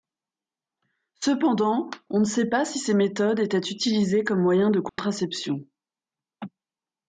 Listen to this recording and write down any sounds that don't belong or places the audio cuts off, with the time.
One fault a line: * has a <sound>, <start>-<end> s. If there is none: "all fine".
* has a dropout, 4.9-5.0 s